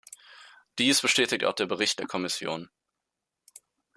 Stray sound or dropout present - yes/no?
no